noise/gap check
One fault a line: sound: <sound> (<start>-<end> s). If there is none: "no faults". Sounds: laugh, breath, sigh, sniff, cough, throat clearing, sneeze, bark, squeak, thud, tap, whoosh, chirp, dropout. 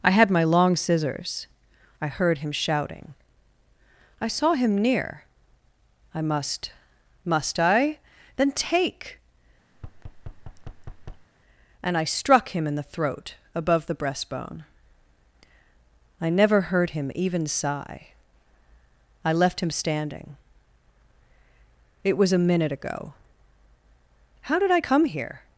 sound: thud (9.7-11.3 s)